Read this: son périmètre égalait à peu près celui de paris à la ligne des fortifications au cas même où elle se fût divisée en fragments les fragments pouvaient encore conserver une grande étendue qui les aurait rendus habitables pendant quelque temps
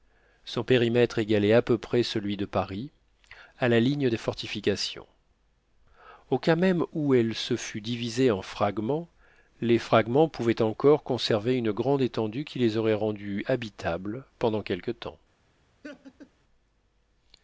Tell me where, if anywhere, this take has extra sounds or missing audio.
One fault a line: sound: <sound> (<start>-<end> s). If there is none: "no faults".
sound: laugh (15.8-16.3 s)